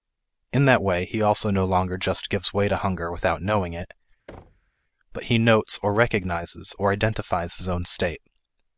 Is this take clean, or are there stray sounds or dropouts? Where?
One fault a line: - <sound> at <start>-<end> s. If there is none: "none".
- thud at 4.3-4.7 s